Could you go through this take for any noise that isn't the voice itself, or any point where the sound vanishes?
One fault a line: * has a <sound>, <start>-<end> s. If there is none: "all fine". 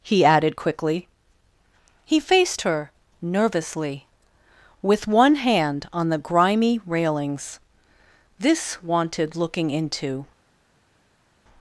all fine